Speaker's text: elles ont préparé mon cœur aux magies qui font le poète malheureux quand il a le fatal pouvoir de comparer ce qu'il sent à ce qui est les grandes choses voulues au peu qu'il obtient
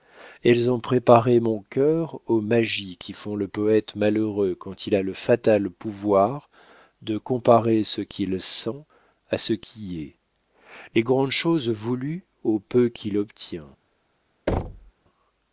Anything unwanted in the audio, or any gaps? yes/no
yes